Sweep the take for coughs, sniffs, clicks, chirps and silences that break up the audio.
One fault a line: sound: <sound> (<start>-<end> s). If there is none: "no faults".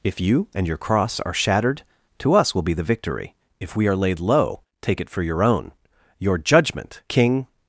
no faults